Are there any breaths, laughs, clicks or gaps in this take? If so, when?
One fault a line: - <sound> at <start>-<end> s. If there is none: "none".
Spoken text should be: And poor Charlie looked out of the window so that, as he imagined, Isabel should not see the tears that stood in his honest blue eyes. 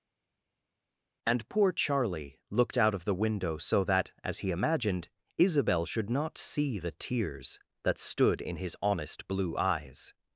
none